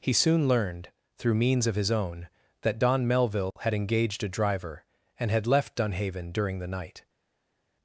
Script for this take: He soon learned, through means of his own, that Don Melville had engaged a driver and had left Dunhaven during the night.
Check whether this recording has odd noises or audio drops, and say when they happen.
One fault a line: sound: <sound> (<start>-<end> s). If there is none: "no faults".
no faults